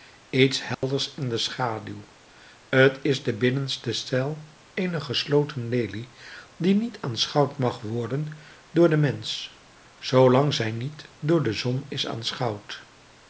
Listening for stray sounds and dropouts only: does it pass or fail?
fail